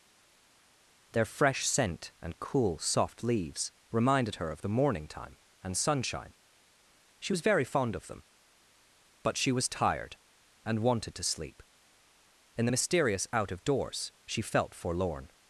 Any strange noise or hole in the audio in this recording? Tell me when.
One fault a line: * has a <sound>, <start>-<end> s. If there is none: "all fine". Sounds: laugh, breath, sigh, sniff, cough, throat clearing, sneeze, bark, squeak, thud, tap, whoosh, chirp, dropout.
all fine